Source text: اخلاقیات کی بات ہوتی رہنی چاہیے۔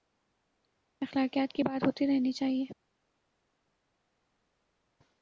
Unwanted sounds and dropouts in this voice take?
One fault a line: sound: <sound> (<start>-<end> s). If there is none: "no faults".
no faults